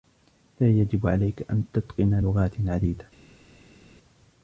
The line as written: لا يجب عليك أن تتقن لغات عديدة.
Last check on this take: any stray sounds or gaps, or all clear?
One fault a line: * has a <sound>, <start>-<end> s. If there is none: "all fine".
all fine